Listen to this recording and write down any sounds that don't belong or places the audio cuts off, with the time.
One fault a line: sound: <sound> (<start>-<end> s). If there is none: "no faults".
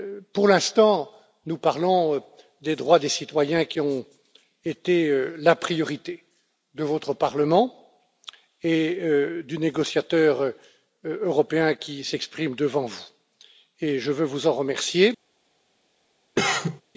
sound: cough (16.4-16.8 s)